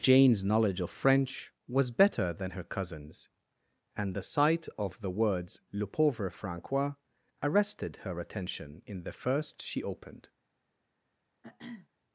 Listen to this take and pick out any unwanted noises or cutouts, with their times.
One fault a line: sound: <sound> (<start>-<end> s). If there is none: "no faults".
sound: throat clearing (11.4-11.9 s)